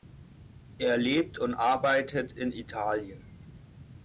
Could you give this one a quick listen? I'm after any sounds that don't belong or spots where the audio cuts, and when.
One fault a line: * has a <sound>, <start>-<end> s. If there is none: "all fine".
all fine